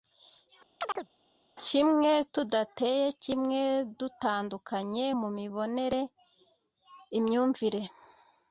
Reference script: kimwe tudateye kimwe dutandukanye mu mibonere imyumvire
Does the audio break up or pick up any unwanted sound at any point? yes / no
yes